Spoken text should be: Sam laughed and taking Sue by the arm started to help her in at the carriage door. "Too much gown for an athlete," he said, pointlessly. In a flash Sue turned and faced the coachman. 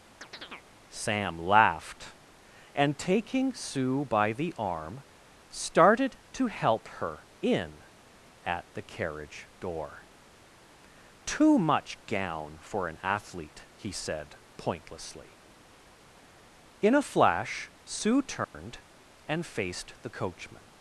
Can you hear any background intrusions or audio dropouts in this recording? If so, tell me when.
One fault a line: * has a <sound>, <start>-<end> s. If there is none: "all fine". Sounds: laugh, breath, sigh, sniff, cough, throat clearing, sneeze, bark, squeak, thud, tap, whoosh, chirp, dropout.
* has a chirp, 0.2-0.7 s
* has a dropout, 18.4-18.5 s